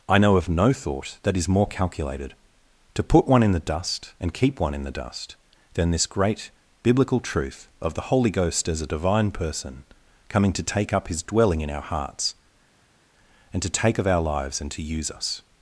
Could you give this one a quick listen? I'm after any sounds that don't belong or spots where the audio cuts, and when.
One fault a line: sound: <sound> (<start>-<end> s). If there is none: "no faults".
no faults